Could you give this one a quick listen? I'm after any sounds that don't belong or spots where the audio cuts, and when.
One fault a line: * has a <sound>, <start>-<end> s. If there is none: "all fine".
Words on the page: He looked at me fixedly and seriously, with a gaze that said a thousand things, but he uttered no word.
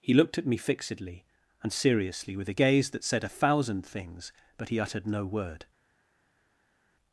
all fine